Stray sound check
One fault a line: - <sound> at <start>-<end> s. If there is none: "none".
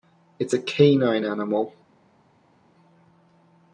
none